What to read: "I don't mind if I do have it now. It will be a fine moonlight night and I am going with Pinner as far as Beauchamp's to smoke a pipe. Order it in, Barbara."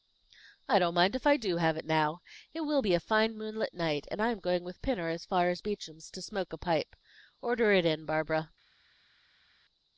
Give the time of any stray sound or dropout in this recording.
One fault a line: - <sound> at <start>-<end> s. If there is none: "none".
none